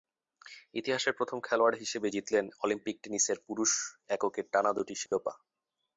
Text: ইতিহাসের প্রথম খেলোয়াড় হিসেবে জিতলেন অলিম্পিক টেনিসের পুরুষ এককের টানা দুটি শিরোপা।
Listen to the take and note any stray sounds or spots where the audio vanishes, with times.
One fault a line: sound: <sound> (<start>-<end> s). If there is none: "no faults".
sound: dropout (5.1-5.1 s)